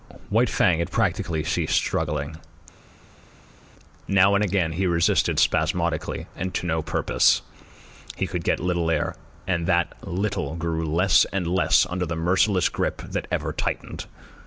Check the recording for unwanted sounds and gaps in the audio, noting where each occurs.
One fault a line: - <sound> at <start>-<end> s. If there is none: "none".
none